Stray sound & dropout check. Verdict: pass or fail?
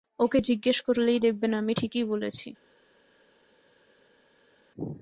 pass